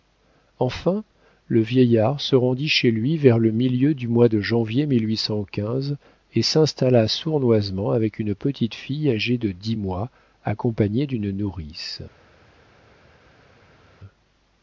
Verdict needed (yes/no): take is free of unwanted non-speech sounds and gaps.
yes